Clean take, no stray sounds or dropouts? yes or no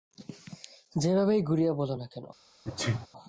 no